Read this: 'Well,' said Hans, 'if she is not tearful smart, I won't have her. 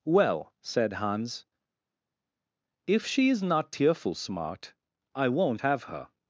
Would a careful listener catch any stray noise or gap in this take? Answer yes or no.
no